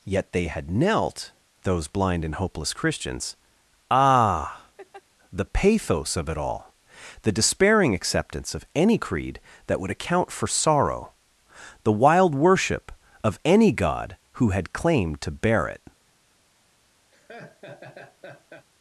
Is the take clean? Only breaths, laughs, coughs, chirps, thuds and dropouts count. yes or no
no